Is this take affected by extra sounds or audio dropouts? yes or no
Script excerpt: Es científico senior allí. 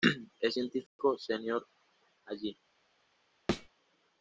yes